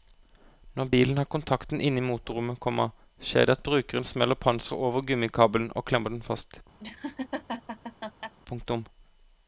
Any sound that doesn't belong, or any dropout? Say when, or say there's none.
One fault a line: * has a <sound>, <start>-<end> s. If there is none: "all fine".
* has a laugh, 6.8-8.3 s